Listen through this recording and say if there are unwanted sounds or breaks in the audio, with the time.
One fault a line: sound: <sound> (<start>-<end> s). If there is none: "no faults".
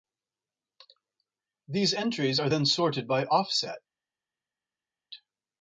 no faults